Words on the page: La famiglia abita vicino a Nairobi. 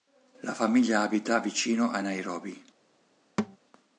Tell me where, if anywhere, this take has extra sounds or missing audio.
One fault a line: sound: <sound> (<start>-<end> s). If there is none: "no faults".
sound: thud (3.4-3.6 s)